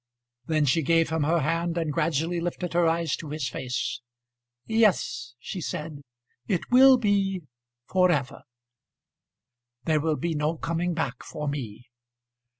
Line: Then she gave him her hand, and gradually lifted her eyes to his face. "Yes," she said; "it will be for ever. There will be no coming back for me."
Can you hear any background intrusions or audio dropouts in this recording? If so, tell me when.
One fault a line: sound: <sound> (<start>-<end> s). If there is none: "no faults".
no faults